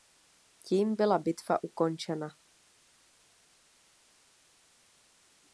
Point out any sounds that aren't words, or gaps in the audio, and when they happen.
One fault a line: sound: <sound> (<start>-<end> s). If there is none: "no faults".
no faults